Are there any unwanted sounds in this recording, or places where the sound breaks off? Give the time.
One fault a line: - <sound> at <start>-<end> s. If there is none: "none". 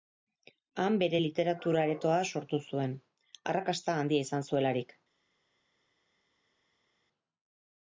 none